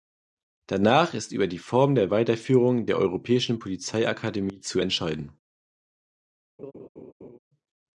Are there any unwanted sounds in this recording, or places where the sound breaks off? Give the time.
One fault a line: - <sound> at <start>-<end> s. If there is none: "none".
- laugh at 6.6-7.4 s